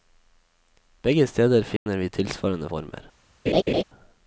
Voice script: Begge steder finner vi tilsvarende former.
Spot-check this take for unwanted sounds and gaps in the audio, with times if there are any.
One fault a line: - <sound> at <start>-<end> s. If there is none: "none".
- dropout at 1.8-1.9 s
- laugh at 3.5-3.8 s